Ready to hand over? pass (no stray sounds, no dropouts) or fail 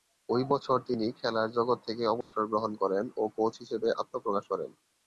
fail